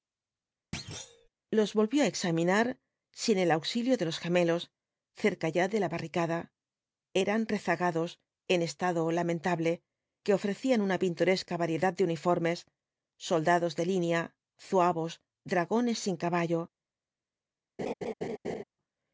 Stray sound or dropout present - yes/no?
yes